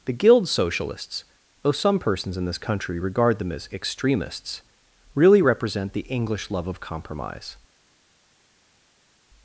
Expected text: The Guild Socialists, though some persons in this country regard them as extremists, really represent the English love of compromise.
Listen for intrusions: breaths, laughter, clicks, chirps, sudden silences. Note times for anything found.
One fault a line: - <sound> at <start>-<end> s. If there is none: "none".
none